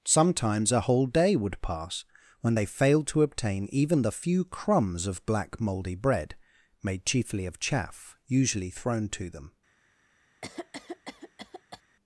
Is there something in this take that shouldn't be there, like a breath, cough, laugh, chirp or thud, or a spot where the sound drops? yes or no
yes